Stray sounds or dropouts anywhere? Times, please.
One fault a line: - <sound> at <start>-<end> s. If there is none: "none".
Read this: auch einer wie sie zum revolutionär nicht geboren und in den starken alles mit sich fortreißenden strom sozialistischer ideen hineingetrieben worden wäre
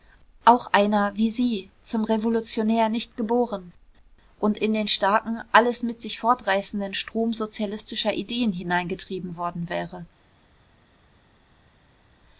none